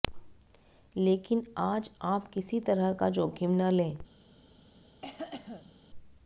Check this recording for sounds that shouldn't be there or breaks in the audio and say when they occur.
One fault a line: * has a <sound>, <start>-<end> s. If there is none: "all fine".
* has a cough, 5.0-5.8 s